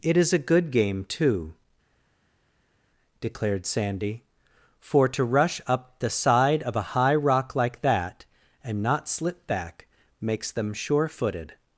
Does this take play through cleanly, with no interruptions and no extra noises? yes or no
yes